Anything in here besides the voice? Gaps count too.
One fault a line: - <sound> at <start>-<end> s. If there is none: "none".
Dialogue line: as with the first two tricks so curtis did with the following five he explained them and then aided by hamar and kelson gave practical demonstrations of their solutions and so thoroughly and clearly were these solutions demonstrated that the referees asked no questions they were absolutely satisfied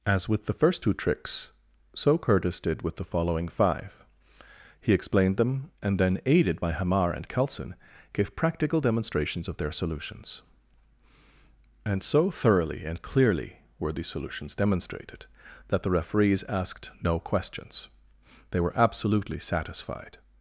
none